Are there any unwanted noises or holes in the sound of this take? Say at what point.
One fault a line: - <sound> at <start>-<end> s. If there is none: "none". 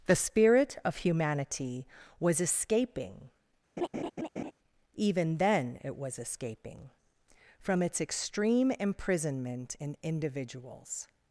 - laugh at 3.8-4.5 s